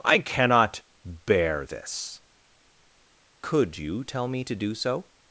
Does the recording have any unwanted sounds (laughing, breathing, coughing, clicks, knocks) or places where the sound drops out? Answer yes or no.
no